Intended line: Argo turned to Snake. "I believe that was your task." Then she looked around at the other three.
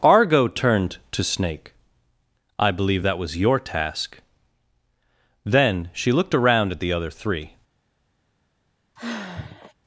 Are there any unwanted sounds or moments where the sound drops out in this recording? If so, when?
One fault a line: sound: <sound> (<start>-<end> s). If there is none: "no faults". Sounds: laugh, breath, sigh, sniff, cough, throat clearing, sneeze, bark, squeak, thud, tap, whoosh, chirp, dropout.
sound: sigh (9.0-9.7 s)